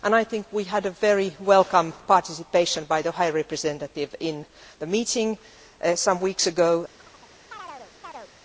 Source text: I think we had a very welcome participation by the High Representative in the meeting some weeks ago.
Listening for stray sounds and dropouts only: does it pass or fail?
fail